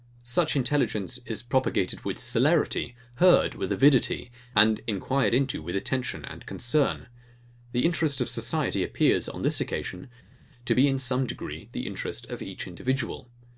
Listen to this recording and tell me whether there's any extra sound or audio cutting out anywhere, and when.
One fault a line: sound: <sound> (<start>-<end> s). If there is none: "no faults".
no faults